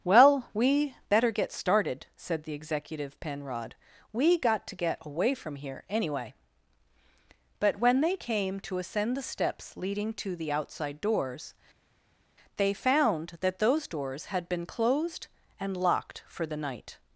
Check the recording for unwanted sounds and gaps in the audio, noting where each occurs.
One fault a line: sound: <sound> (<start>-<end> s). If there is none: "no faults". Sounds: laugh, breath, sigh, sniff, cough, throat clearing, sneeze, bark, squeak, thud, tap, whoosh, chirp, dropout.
no faults